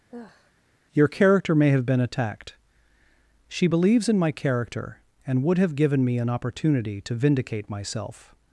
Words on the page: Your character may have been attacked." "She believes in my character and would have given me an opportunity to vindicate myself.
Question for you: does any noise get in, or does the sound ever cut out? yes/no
yes